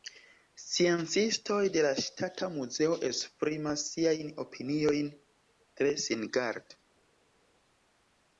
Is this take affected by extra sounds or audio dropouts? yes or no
no